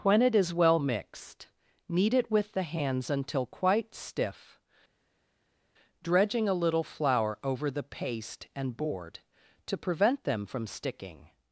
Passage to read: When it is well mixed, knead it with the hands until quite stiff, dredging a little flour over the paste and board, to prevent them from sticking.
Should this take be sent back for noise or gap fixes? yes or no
no